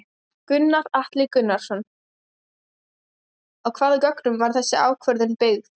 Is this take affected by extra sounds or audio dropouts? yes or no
no